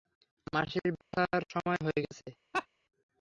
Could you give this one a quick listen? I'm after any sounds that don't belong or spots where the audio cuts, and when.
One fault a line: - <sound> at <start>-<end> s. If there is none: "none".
- dropout at 1.0-1.1 s
- laugh at 2.5-2.7 s